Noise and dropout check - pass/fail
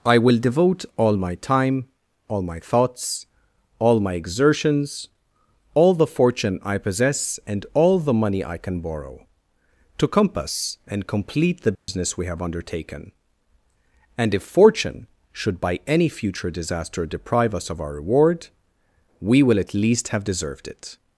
fail